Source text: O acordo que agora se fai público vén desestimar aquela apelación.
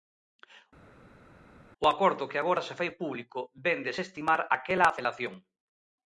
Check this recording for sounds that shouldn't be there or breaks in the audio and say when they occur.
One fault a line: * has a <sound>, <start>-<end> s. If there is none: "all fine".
all fine